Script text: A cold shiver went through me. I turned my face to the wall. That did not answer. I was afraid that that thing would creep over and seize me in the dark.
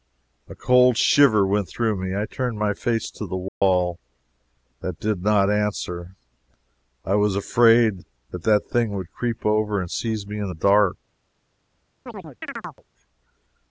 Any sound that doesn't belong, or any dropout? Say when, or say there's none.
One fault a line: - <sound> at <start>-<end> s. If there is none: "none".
- dropout at 3.5-3.6 s
- chirp at 12.1-12.8 s